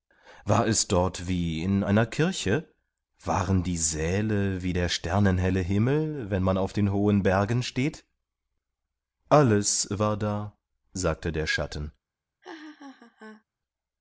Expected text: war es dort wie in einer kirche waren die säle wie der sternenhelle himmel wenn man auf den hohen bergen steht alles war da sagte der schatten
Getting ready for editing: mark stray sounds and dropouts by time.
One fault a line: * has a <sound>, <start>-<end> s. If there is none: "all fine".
* has a laugh, 12.4-13.4 s